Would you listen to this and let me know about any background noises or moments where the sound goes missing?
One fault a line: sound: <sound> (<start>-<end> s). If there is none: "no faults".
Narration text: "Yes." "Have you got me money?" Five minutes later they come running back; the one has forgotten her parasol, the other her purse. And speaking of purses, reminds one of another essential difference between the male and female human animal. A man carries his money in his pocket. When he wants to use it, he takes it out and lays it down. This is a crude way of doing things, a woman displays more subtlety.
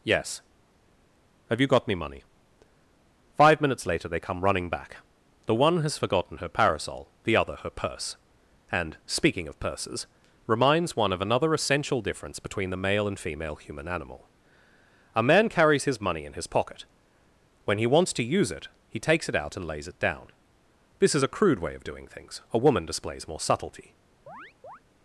sound: chirp (24.3-24.8 s)